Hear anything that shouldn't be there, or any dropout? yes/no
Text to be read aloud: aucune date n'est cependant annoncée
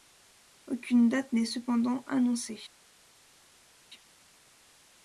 no